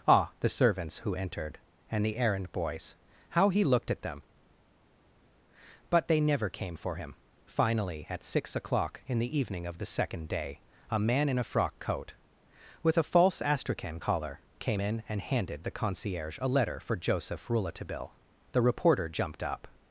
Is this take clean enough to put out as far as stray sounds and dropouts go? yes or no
yes